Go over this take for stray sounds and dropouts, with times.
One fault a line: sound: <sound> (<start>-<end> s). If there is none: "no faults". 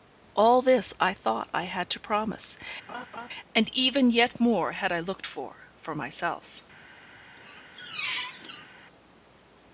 sound: laugh (2.9-3.3 s)
sound: squeak (7.4-8.7 s)